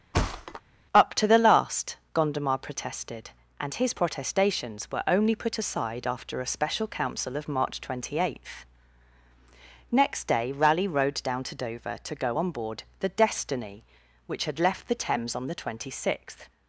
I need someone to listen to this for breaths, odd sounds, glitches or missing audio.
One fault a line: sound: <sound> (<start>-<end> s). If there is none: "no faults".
sound: thud (0.1-0.6 s)